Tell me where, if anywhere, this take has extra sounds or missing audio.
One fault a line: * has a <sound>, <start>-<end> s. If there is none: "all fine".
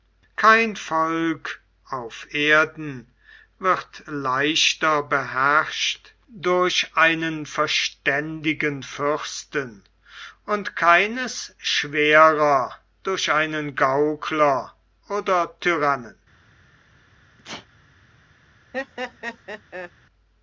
* has a sneeze, 17.4-17.7 s
* has a laugh, 18.7-19.9 s